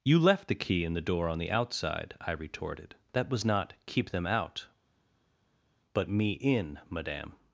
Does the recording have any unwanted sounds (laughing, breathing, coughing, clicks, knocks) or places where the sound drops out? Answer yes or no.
no